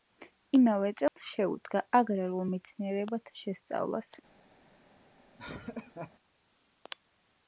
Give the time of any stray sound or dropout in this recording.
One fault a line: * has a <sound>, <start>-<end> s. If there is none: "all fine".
* has a dropout, 1.1-1.2 s
* has a laugh, 5.4-6.1 s